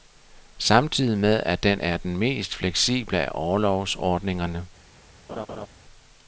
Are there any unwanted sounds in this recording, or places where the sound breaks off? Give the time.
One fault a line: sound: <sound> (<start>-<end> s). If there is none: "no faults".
sound: laugh (5.3-5.7 s)